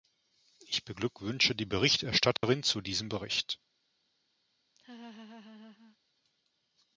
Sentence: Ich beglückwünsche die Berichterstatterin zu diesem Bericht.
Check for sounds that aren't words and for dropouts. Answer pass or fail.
fail